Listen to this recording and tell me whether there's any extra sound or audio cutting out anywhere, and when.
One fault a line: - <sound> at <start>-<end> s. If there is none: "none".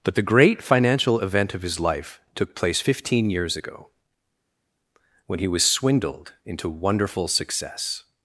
none